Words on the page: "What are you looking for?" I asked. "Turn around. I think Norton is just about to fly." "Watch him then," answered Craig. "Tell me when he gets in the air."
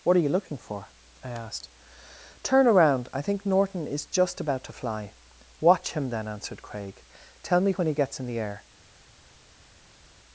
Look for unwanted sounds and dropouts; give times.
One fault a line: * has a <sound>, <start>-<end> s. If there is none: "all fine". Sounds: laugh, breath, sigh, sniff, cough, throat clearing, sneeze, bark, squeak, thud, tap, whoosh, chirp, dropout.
all fine